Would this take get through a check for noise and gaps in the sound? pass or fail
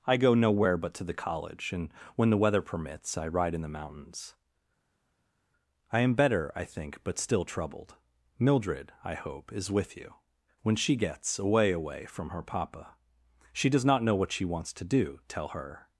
pass